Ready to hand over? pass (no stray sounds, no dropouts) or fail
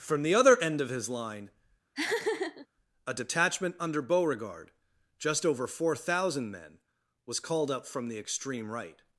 fail